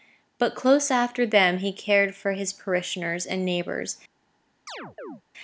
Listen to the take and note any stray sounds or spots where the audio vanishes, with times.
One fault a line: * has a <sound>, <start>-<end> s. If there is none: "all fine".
* has a chirp, 4.7-5.2 s